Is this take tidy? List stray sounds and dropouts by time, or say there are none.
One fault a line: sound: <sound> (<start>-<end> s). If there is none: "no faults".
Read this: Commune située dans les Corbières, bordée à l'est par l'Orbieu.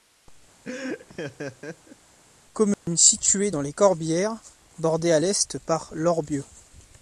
sound: laugh (0.6-2.0 s)
sound: dropout (2.7-2.9 s)